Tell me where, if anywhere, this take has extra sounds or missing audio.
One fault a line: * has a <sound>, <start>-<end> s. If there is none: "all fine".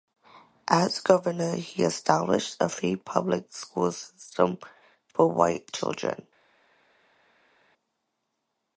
all fine